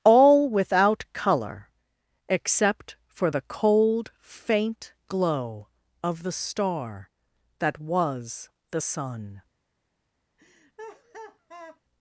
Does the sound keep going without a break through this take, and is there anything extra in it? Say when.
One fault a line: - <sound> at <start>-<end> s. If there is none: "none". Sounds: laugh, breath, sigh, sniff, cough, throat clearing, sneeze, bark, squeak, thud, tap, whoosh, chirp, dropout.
- laugh at 10.4-11.8 s